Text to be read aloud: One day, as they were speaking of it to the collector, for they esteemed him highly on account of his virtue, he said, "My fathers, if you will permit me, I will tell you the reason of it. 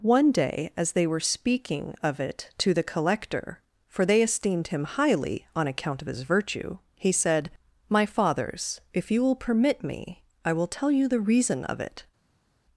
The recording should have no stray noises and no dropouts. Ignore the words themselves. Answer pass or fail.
pass